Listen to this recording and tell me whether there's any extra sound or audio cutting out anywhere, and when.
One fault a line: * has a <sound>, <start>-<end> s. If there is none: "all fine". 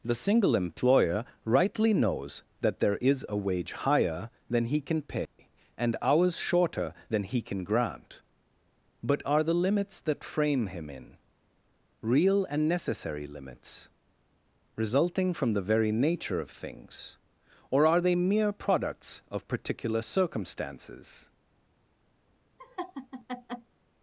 * has a dropout, 5.2-5.4 s
* has a laugh, 22.6-23.7 s